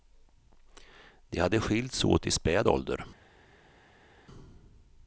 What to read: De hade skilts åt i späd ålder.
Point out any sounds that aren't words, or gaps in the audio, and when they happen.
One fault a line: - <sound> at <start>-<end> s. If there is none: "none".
none